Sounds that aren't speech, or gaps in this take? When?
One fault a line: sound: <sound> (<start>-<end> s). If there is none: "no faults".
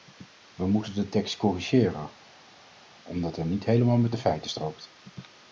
no faults